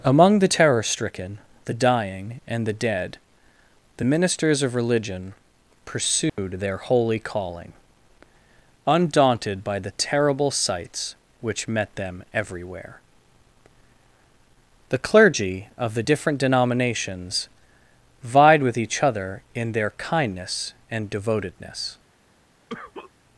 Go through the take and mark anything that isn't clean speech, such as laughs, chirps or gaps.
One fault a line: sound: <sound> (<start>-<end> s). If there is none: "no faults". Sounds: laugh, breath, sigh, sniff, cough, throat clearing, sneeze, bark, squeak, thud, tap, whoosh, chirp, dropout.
sound: dropout (6.3-6.4 s)
sound: cough (22.7-23.1 s)